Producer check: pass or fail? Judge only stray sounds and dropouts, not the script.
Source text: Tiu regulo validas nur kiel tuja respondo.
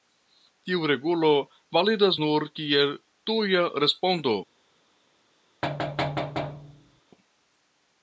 fail